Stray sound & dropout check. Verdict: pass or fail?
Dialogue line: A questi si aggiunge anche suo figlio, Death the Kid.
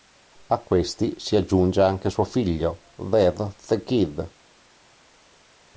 pass